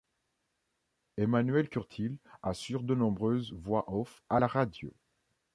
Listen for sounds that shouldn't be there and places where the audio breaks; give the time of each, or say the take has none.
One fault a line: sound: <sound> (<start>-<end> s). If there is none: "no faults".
no faults